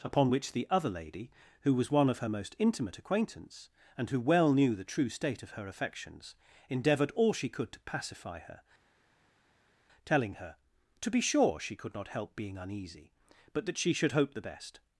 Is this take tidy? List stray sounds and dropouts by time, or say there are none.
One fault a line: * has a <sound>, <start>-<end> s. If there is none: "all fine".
all fine